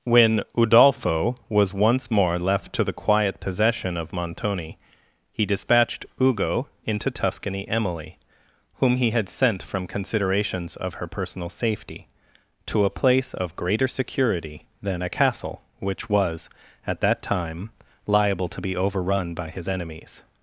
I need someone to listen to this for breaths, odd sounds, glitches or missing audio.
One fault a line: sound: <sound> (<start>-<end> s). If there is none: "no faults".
no faults